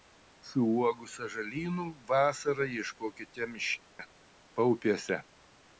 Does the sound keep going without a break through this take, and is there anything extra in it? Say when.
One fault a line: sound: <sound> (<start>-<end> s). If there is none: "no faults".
sound: dropout (3.9-4.0 s)